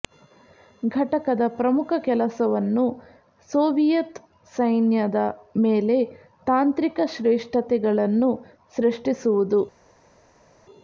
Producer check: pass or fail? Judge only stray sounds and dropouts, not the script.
pass